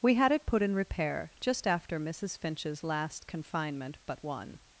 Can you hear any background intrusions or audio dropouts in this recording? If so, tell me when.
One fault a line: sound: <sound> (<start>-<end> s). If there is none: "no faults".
no faults